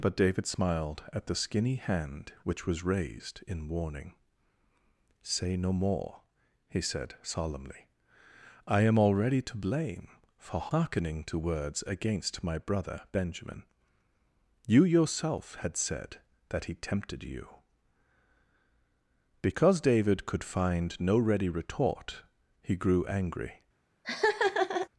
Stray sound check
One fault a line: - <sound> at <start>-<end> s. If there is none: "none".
- laugh at 24.0-24.9 s